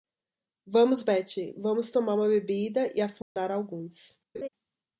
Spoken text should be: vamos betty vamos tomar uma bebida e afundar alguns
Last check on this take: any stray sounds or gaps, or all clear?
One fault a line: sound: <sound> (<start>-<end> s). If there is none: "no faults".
sound: dropout (3.2-3.4 s)
sound: laugh (4.3-4.5 s)